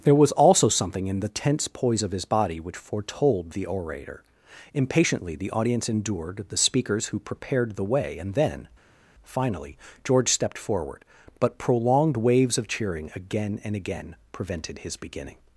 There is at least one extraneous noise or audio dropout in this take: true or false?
false